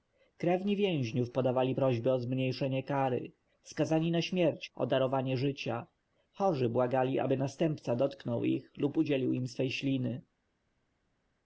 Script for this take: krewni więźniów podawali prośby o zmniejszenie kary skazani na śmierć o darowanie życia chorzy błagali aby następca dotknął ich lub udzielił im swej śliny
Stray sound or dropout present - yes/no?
no